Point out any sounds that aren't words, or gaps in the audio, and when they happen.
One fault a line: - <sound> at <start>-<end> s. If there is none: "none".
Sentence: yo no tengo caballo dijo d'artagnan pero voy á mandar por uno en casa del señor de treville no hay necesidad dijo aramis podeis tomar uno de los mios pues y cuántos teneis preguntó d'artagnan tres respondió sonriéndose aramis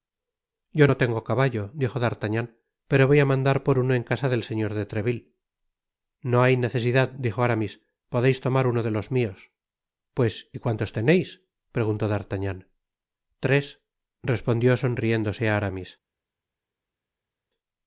none